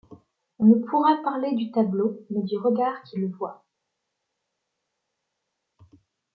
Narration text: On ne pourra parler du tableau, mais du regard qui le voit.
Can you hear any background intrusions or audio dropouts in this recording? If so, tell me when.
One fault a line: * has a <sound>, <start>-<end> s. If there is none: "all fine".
all fine